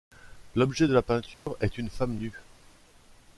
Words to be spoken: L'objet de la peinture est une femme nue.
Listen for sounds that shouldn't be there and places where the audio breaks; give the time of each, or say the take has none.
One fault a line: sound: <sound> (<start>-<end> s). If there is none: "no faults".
sound: dropout (1.3-1.5 s)